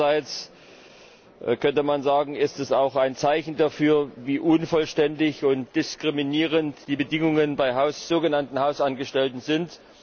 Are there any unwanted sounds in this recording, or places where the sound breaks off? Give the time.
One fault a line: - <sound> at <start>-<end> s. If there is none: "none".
none